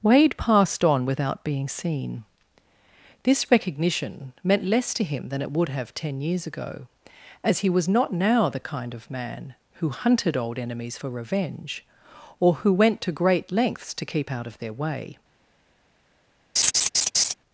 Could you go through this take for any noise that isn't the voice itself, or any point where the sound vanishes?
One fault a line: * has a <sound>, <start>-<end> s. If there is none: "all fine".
* has a laugh, 16.6-17.3 s